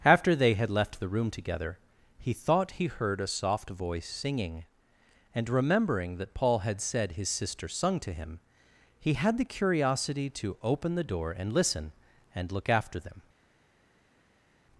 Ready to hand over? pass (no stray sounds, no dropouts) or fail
pass